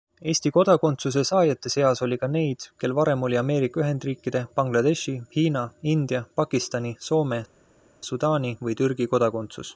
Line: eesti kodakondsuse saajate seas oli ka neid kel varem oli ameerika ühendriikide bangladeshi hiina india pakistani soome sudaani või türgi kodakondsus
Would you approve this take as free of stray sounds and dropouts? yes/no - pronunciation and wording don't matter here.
yes